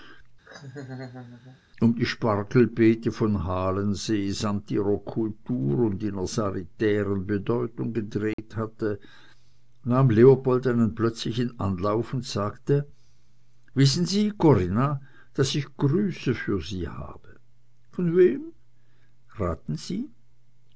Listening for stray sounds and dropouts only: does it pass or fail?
fail